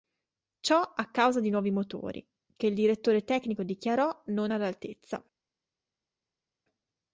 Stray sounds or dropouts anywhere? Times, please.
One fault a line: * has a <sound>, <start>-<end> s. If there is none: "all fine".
all fine